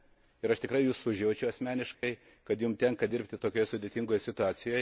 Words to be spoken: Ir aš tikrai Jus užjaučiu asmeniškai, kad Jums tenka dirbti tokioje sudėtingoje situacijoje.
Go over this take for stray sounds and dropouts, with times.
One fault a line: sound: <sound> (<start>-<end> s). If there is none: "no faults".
sound: dropout (1.9-2.0 s)